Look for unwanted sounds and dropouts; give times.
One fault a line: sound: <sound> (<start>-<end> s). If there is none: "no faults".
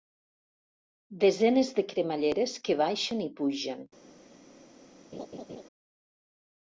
sound: laugh (5.1-5.6 s)